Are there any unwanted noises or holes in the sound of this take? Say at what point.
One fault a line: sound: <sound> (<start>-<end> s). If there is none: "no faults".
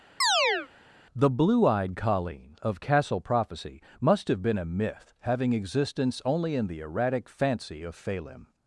sound: chirp (0.2-0.7 s)